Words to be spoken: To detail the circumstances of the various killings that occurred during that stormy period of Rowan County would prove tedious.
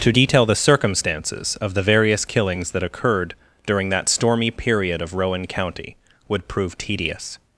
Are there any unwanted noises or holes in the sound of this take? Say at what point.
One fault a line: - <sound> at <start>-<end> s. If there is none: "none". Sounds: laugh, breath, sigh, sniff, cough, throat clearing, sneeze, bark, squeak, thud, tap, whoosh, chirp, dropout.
none